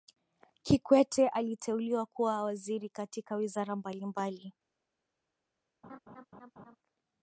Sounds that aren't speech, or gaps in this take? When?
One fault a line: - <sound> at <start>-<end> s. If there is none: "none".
- laugh at 5.8-6.8 s